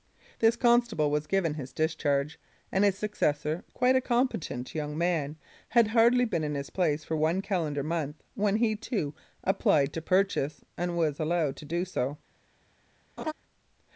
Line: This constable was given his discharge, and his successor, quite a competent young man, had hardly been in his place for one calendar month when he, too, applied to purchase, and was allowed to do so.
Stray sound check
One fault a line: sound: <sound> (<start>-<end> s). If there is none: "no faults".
sound: laugh (13.2-13.3 s)